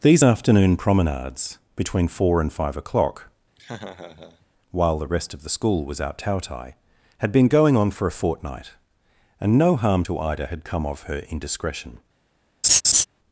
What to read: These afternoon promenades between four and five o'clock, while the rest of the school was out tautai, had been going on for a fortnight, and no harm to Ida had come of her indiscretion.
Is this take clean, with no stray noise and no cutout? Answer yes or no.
no